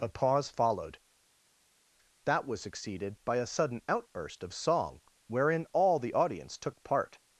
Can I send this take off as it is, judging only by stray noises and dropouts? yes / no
yes